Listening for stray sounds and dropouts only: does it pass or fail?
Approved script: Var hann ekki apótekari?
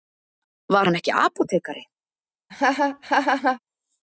fail